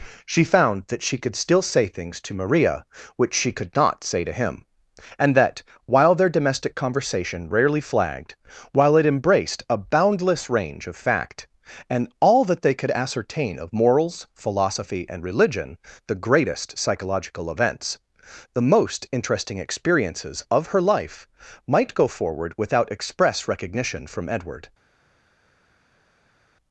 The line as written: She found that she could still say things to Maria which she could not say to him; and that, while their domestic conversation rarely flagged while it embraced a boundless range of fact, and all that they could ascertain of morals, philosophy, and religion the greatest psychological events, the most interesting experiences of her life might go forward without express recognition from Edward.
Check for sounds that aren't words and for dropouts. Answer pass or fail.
pass